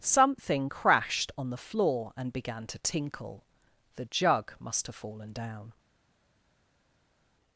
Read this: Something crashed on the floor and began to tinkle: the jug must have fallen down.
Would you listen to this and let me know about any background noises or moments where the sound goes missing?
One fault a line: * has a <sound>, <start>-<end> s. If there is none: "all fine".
all fine